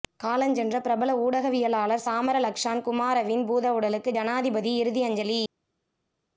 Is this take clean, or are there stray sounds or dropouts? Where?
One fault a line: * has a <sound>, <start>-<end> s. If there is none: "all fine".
all fine